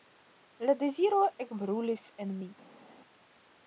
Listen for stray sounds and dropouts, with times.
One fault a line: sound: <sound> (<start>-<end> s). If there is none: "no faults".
no faults